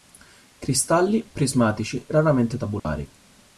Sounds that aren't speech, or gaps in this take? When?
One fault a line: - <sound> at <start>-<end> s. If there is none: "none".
- dropout at 2.8-2.8 s